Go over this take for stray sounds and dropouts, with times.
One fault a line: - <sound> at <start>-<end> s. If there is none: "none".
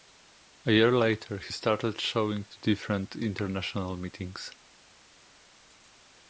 none